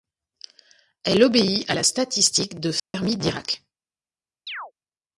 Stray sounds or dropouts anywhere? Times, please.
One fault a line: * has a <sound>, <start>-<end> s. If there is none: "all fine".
* has a dropout, 2.8-2.9 s
* has a chirp, 4.5-4.7 s